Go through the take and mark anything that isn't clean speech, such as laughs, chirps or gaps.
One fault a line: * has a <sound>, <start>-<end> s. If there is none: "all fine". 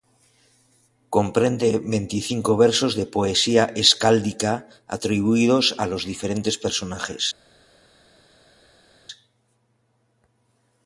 all fine